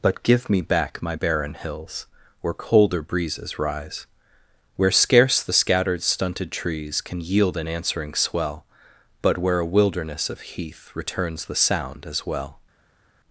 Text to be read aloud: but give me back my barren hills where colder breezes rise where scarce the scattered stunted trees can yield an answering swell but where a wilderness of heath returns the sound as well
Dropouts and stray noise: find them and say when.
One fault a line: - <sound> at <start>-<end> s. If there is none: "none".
none